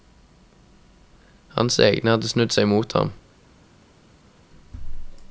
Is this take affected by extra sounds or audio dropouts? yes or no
no